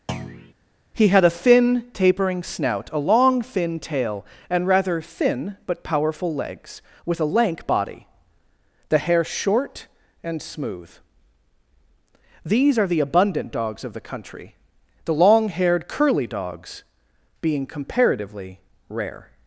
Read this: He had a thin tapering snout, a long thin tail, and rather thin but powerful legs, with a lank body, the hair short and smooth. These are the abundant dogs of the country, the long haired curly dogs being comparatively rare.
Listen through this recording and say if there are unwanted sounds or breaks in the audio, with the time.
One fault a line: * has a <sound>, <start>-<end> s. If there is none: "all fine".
* has a thud, 0.1-0.5 s